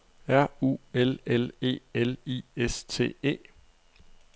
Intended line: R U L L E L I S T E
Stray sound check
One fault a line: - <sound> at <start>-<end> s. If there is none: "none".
none